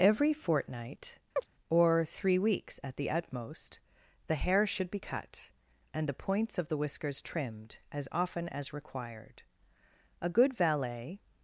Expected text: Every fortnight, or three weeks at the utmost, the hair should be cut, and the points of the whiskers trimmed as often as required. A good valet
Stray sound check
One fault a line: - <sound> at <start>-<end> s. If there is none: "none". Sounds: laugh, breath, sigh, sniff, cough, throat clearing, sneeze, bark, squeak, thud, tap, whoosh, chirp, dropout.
- chirp at 1.4-1.5 s